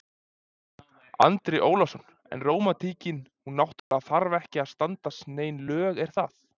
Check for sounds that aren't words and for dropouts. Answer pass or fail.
fail